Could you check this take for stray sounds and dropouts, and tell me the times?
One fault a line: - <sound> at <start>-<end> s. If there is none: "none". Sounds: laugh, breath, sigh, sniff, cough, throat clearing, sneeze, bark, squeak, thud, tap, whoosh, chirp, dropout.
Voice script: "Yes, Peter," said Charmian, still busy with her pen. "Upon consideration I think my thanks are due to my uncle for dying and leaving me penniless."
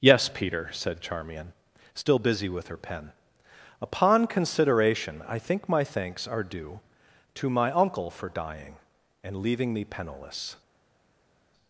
none